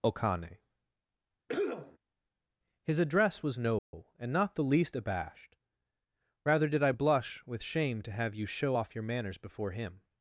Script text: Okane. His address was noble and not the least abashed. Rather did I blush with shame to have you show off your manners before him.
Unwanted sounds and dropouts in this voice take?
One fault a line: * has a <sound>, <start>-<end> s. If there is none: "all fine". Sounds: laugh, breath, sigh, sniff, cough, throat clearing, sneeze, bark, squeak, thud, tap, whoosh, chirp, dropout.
* has a cough, 1.5-2.0 s
* has a dropout, 3.8-3.9 s